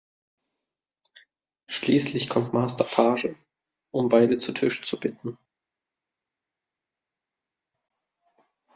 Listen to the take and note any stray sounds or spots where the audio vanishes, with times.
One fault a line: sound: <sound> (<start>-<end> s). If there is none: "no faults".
no faults